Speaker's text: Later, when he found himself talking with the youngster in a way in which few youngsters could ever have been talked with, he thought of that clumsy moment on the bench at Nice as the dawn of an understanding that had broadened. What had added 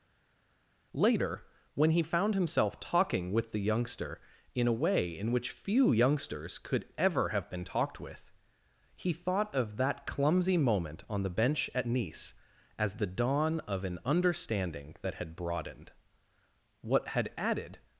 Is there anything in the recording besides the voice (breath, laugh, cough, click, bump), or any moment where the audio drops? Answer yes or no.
no